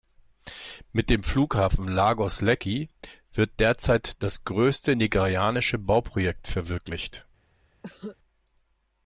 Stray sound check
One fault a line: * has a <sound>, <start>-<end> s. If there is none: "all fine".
* has a cough, 7.8-8.2 s